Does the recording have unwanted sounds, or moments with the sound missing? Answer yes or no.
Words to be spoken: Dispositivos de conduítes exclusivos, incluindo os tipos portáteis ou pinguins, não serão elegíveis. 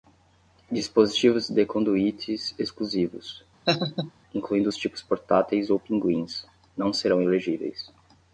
yes